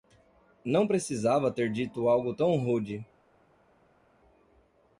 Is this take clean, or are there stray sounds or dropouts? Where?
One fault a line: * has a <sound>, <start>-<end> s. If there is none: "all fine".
all fine